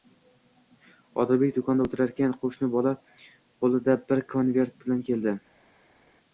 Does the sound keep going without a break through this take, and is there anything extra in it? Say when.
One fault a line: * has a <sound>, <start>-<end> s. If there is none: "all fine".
all fine